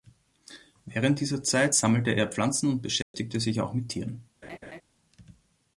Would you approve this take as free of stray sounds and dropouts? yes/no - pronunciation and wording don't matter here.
no